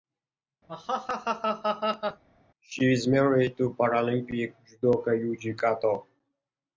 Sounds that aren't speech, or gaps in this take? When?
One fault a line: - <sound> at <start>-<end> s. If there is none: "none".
- laugh at 0.7-2.2 s